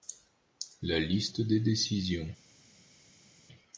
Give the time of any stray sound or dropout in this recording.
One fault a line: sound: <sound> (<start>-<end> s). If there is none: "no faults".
no faults